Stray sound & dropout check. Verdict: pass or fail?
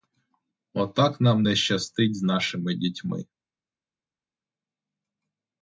pass